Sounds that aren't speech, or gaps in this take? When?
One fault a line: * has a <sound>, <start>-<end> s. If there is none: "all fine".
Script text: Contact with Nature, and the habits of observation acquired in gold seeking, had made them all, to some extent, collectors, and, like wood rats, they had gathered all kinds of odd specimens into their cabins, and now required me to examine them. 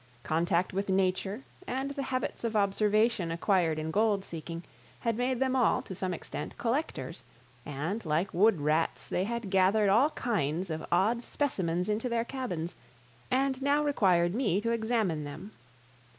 all fine